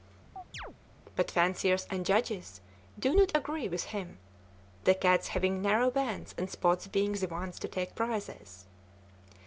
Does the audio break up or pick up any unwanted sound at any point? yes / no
yes